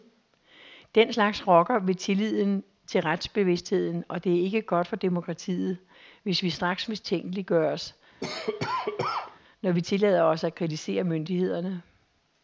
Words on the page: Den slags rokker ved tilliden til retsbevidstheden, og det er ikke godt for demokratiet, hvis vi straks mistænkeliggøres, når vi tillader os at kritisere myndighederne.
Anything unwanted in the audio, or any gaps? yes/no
yes